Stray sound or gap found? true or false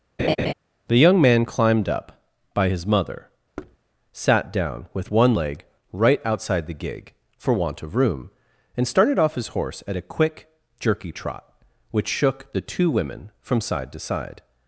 true